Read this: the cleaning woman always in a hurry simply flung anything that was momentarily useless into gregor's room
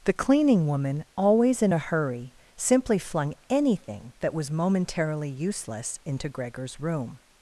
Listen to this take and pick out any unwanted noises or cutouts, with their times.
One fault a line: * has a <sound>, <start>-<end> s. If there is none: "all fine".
all fine